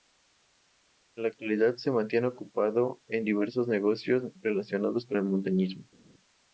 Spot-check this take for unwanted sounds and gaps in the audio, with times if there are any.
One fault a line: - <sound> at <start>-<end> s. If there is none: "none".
none